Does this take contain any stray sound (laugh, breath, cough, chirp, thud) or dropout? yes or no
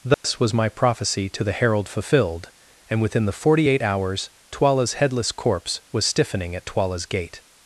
yes